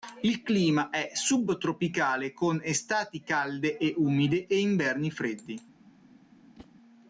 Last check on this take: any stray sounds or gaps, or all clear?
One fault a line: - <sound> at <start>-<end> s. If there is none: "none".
- whoosh at 6.6-6.7 s